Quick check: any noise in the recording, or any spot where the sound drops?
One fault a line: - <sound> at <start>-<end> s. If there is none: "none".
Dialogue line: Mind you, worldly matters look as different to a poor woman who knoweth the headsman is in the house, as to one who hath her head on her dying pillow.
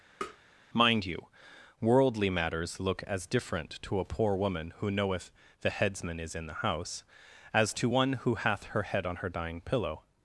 - tap at 0.2-0.4 s